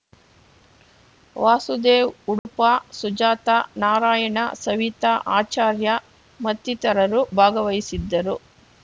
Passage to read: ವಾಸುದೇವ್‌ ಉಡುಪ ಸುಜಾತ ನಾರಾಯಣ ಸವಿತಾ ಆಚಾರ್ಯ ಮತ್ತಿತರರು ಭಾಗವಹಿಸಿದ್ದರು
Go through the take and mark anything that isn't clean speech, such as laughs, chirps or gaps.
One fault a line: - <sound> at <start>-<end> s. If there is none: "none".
- dropout at 2.4-2.5 s